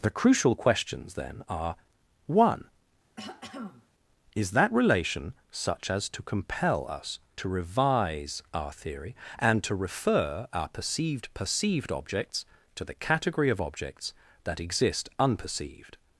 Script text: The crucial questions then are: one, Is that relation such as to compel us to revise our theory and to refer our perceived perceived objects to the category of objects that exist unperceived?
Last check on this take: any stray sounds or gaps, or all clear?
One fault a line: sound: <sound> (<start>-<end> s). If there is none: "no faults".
sound: throat clearing (3.2-3.9 s)